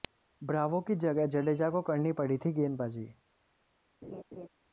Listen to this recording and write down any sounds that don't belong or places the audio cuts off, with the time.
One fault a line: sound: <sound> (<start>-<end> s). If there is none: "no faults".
sound: laugh (4.0-4.5 s)